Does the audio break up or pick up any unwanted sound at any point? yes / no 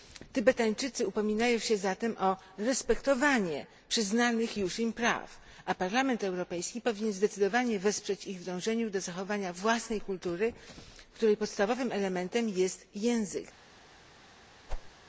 yes